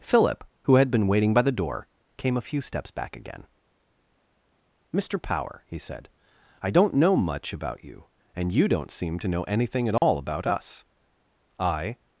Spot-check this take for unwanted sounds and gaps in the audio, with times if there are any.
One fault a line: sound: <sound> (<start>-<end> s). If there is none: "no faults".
sound: dropout (10.0-10.0 s)